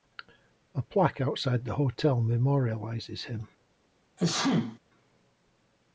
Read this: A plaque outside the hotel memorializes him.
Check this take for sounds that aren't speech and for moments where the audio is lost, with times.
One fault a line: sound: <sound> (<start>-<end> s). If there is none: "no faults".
sound: sneeze (4.2-4.8 s)